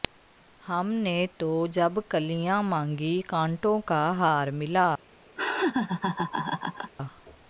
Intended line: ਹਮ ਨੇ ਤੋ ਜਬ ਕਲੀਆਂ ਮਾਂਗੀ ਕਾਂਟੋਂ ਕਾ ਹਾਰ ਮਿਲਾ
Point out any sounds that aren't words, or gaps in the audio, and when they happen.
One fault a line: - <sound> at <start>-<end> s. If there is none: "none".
- laugh at 5.4-6.9 s